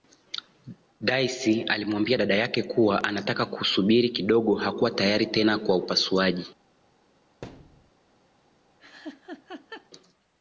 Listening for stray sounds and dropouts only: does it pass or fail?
fail